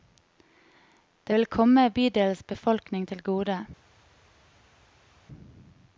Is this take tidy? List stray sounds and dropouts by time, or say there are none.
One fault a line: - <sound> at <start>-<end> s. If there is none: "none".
none